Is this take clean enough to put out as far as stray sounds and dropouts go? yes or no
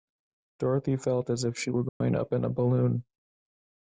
no